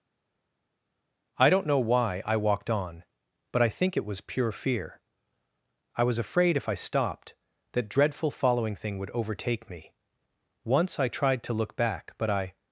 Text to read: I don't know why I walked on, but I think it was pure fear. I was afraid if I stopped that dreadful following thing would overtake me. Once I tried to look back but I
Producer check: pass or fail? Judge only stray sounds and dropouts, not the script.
pass